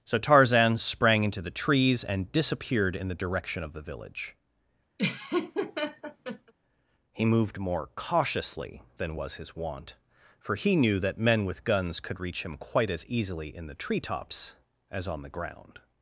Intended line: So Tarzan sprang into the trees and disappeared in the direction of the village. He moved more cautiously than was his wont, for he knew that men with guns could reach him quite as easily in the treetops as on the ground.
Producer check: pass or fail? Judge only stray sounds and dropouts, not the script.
fail